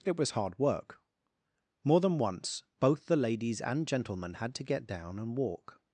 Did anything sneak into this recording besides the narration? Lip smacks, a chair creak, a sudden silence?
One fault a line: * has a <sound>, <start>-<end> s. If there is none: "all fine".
all fine